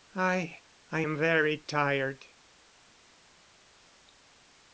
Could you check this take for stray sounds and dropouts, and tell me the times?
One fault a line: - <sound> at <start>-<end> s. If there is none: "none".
none